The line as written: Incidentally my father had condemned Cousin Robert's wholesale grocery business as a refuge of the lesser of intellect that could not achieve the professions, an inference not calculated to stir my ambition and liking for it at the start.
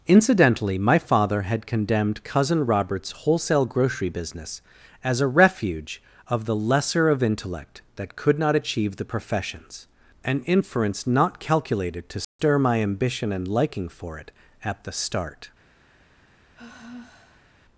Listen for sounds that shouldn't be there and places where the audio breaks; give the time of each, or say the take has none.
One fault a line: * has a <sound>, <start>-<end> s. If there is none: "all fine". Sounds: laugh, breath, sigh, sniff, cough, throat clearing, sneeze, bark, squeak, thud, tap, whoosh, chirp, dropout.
* has a dropout, 12.2-12.4 s
* has a sigh, 16.5-17.7 s